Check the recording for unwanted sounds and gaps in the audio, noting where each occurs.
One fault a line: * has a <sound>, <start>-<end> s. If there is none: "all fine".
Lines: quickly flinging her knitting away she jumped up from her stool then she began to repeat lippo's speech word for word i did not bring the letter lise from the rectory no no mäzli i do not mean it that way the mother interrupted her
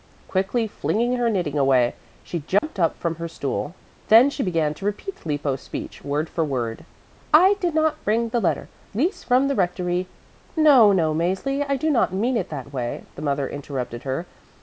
* has a dropout, 2.6-2.6 s